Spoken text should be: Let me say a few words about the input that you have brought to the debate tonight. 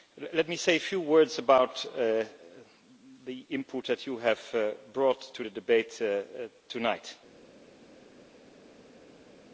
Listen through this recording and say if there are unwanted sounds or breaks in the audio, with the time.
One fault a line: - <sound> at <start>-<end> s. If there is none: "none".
none